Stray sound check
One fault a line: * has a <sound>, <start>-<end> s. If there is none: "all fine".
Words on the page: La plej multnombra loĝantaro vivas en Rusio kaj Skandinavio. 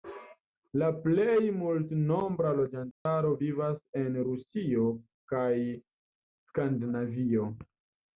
* has a dropout, 2.9-3.1 s